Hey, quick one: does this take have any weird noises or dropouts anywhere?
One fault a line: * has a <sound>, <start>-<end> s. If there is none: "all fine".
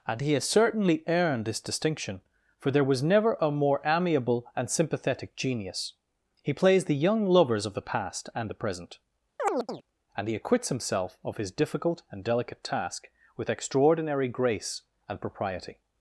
* has a chirp, 9.4-9.8 s